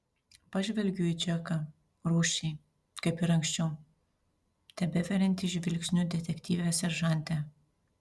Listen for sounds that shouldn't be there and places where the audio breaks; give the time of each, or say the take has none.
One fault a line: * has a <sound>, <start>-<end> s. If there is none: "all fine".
all fine